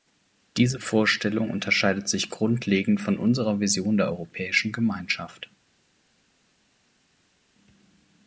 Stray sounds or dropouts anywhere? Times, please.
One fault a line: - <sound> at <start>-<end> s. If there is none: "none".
none